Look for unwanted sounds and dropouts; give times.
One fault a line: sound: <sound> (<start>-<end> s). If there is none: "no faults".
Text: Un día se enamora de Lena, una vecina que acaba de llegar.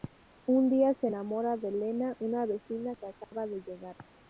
sound: dropout (3.2-3.3 s)